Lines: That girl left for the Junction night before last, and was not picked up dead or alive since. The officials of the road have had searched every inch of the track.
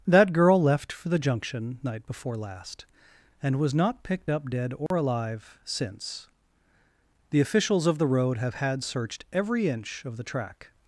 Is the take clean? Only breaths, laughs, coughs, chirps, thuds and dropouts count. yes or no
no